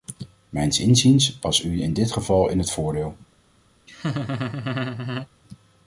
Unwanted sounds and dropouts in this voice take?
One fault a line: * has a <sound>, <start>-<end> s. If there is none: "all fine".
* has a laugh, 3.9-5.3 s